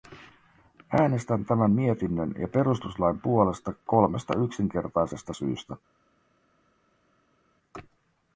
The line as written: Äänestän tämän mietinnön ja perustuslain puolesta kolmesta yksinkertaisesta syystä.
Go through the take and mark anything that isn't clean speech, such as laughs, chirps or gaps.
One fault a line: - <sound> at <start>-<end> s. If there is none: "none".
none